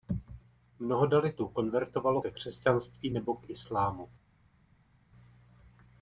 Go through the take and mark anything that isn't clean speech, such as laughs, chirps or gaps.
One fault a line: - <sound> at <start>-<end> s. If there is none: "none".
none